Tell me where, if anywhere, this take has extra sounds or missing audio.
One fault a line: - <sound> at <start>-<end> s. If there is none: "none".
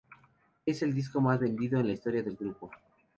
none